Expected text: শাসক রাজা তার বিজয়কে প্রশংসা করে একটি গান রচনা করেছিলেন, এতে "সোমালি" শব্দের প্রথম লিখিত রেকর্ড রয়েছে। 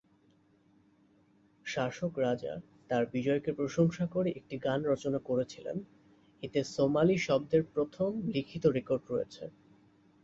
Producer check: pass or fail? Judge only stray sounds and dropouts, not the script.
pass